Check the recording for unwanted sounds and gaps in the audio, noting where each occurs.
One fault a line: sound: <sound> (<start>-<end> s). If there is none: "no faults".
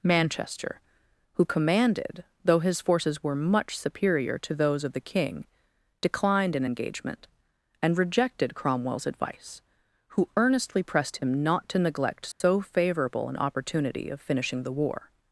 sound: dropout (12.3-12.4 s)